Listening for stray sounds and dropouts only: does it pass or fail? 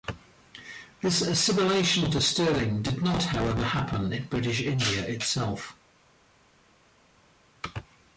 pass